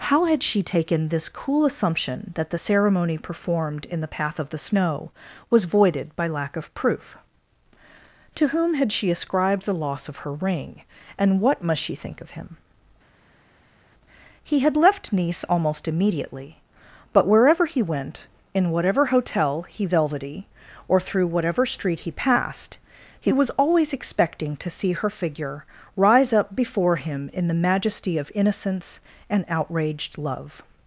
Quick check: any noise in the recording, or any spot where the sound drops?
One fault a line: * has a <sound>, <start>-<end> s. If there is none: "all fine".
all fine